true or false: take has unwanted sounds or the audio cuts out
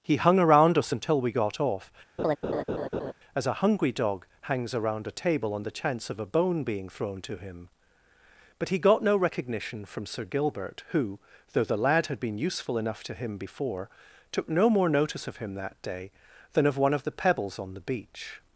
true